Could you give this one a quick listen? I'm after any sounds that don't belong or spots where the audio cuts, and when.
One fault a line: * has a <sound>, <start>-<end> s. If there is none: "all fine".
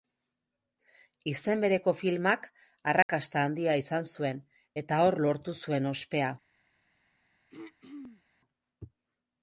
* has a dropout, 3.0-3.1 s
* has a throat clearing, 7.5-8.2 s